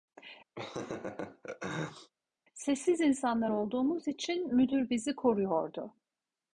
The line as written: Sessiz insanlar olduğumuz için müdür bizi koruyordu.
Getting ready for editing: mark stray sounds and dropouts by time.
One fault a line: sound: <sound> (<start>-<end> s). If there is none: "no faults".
sound: laugh (0.6-2.1 s)